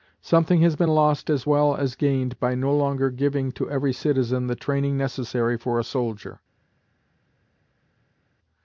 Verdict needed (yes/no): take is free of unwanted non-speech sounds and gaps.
yes